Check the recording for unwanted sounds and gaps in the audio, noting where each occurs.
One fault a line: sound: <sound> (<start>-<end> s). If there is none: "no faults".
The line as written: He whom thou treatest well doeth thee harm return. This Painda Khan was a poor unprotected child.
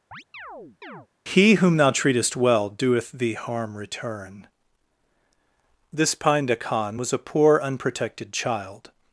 sound: chirp (0.1-1.1 s)